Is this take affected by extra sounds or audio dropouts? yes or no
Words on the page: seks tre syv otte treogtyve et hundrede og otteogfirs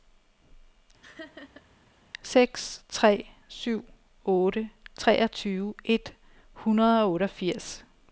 yes